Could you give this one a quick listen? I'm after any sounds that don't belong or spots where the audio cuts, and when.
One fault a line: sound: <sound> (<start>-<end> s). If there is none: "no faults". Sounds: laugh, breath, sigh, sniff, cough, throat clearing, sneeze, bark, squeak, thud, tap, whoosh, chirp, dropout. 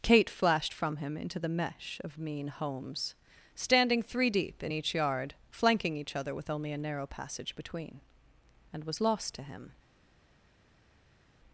no faults